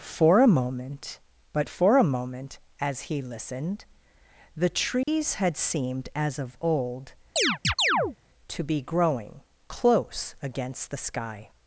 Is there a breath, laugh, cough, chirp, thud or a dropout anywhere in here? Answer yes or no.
yes